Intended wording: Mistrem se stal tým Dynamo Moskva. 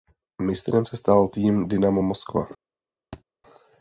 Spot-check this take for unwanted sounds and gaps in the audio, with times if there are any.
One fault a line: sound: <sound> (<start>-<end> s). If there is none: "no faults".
sound: thud (3.1-3.2 s)